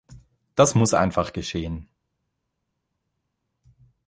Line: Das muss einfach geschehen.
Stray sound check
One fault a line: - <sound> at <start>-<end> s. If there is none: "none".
none